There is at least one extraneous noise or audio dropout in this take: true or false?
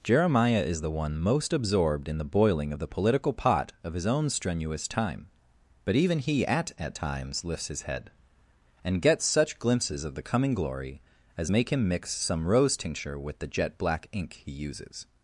false